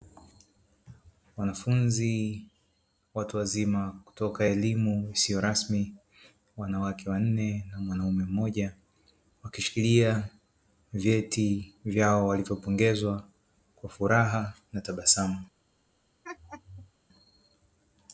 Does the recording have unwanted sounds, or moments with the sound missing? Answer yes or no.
yes